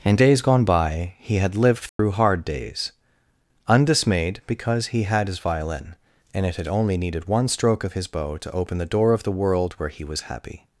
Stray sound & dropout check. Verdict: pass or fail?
fail